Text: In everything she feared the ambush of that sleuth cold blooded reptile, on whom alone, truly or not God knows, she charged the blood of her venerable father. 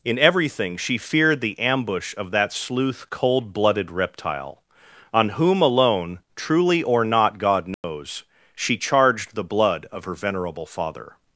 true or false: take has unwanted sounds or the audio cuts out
true